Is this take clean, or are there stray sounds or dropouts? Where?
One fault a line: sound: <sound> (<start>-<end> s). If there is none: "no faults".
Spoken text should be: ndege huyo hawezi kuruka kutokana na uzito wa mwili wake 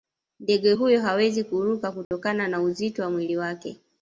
sound: dropout (2.0-2.1 s)